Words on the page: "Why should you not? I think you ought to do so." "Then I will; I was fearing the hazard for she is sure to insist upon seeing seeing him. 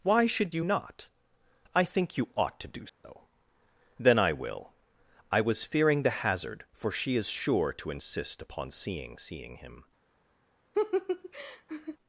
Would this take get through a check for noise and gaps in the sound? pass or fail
fail